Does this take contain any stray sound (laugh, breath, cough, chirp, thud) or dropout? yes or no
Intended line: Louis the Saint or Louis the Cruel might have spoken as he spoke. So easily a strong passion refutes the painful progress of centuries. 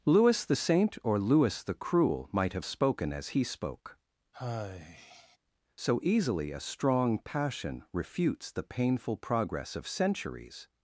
yes